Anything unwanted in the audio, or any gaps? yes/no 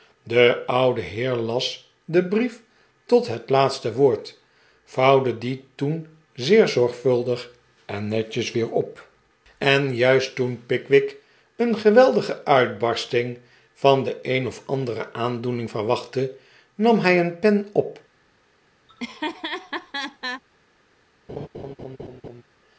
yes